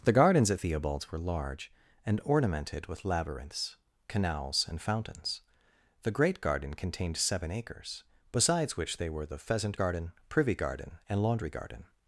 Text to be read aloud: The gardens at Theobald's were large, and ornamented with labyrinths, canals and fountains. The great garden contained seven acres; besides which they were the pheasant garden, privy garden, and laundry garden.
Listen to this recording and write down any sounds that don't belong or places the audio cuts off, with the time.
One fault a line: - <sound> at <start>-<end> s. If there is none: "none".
none